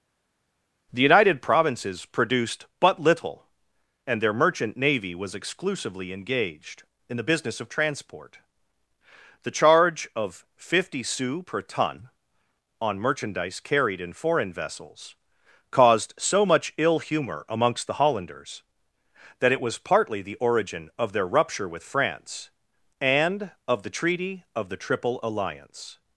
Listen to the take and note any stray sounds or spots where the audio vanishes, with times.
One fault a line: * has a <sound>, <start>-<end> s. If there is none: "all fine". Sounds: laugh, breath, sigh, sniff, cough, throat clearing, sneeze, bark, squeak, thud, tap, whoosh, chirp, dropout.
all fine